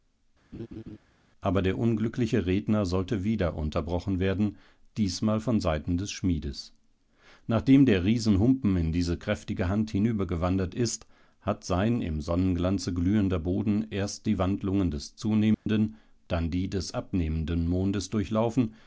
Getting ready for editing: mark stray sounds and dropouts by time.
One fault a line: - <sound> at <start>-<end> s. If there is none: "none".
- laugh at 0.5-1.0 s
- dropout at 15.5-15.7 s